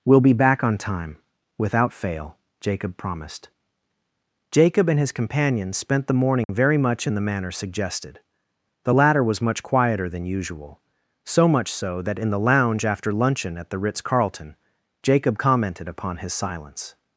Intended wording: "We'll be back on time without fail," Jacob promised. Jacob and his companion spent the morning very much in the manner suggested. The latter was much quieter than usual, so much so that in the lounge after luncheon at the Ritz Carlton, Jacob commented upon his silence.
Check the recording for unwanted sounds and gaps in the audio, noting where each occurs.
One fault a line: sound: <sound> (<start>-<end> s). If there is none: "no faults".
sound: dropout (6.4-6.5 s)